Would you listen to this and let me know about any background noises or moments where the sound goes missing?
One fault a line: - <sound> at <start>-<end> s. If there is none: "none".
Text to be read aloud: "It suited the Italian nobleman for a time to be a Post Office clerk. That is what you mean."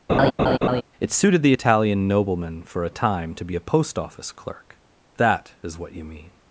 - laugh at 0.1-0.8 s